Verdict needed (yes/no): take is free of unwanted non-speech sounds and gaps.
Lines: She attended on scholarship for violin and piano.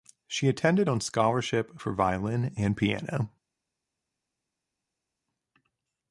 yes